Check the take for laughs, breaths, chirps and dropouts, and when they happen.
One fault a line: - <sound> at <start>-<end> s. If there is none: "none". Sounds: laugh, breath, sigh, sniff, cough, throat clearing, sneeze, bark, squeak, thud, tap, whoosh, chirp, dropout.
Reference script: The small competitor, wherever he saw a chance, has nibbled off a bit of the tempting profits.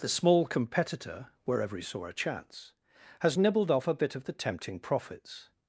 none